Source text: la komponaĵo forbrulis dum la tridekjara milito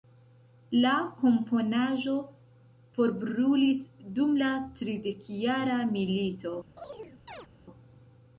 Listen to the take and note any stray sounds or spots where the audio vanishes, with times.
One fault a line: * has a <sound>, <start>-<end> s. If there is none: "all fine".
* has a chirp, 6.8-7.5 s